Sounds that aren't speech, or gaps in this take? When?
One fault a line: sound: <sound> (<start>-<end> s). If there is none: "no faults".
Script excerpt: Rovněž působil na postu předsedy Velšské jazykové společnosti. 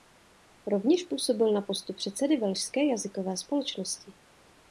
no faults